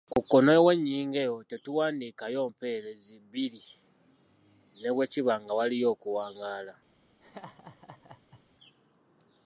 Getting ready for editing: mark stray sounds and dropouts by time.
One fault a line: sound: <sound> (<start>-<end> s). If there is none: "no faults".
sound: laugh (7.2-8.4 s)